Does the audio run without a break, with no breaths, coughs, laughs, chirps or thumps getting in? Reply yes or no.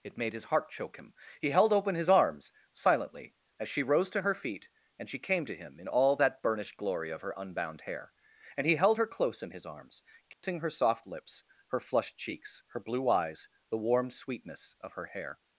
no